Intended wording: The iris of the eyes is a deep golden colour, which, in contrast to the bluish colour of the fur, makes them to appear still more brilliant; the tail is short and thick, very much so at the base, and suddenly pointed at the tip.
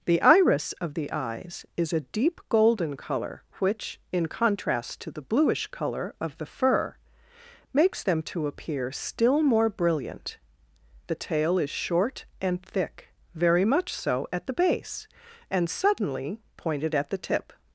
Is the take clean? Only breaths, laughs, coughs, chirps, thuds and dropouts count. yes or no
yes